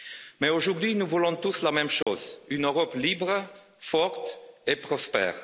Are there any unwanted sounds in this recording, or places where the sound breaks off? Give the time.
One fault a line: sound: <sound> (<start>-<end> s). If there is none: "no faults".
sound: dropout (2.0-2.1 s)